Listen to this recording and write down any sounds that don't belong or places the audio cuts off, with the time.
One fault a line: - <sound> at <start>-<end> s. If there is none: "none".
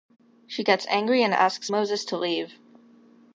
none